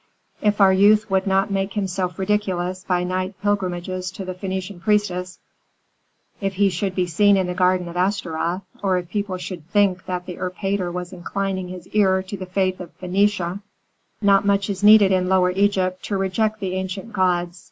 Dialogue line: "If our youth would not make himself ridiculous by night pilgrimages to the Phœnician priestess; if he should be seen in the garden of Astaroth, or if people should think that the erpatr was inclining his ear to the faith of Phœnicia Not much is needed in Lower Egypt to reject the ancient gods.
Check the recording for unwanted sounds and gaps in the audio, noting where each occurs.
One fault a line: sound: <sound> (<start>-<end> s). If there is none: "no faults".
no faults